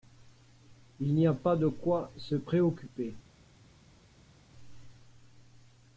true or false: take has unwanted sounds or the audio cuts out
false